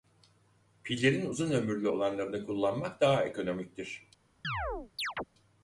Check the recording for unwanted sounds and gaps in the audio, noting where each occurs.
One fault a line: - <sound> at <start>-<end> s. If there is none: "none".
- chirp at 4.4-5.2 s